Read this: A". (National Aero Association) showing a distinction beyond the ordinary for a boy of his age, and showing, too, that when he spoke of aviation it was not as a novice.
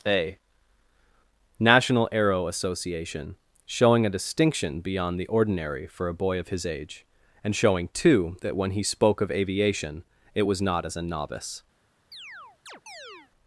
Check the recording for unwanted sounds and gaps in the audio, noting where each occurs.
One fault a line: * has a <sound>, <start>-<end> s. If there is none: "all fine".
* has a chirp, 12.1-13.3 s